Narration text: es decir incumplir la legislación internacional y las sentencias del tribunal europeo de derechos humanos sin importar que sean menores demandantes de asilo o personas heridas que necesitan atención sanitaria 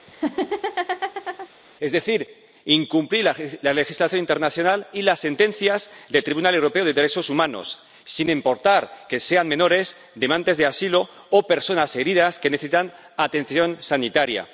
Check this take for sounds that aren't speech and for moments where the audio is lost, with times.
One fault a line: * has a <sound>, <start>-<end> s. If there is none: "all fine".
* has a laugh, 0.1-1.5 s